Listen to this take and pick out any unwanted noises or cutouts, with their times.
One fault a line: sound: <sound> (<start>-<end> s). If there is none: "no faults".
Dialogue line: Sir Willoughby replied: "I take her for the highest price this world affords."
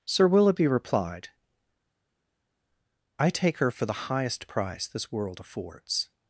no faults